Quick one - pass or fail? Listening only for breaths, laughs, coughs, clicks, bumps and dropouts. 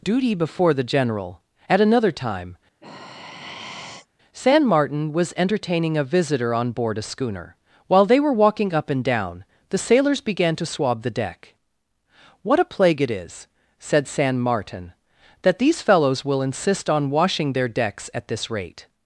fail